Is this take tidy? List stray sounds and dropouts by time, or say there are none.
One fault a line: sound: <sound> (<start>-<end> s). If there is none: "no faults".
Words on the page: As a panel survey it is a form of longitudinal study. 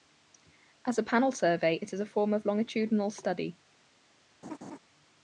sound: laugh (4.4-4.8 s)